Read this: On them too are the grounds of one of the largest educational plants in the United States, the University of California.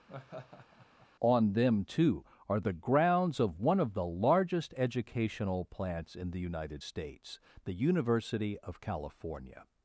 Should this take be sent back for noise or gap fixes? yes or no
yes